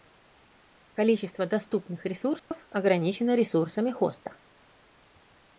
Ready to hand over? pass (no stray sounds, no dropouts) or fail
fail